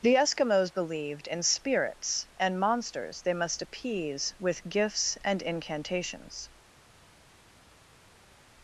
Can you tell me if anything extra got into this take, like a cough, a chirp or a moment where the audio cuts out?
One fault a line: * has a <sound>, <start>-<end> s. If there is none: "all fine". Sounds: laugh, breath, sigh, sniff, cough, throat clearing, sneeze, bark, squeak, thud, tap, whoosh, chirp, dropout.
all fine